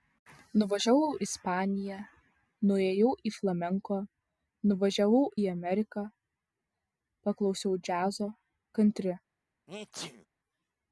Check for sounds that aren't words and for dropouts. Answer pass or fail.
fail